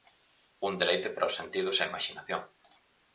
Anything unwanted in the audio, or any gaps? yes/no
no